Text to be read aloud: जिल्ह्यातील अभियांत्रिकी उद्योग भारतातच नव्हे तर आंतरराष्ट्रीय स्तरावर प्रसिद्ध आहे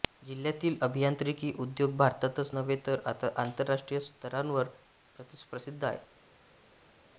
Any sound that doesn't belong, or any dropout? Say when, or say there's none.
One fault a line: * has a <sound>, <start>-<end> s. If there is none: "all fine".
all fine